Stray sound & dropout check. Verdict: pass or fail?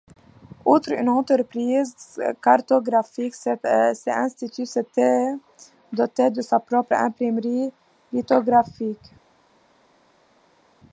pass